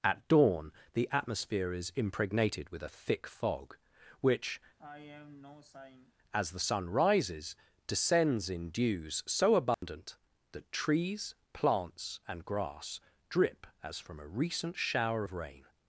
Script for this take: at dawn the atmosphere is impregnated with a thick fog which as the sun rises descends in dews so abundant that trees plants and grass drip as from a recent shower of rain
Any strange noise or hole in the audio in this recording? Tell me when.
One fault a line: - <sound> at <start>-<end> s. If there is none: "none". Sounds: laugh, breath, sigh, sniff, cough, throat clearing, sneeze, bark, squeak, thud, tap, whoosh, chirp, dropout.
- sigh at 4.8-6.1 s
- dropout at 9.7-9.8 s